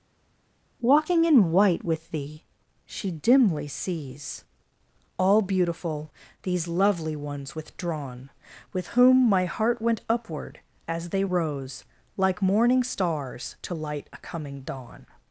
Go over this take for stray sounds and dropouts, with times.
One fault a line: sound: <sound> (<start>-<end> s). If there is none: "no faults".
no faults